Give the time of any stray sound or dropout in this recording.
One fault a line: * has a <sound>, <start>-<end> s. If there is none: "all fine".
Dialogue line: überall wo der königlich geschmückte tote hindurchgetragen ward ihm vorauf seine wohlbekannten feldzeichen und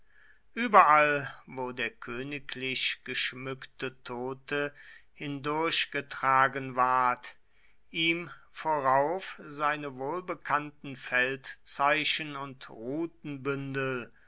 all fine